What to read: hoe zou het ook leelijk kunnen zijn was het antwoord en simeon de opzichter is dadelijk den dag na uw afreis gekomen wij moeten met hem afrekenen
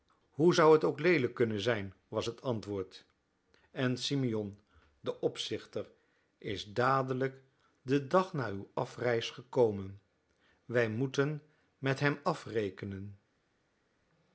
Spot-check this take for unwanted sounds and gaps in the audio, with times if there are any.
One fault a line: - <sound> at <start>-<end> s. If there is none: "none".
none